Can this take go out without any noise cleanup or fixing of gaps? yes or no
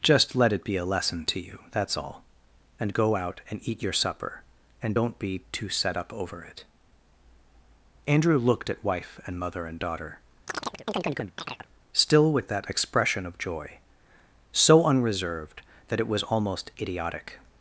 no